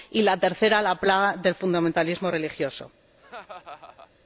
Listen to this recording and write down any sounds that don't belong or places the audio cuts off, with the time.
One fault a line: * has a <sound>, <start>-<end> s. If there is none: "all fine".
* has a laugh, 3.2-4.1 s